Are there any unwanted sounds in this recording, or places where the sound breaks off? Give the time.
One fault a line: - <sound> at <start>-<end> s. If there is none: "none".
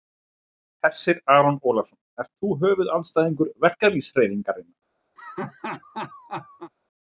- laugh at 5.2-6.7 s